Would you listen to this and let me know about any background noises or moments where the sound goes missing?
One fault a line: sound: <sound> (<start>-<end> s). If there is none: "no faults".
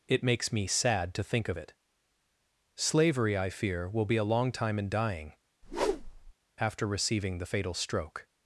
sound: whoosh (5.6-6.3 s)